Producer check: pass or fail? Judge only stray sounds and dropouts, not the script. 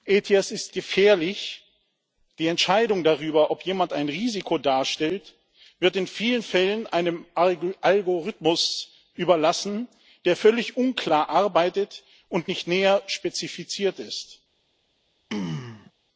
fail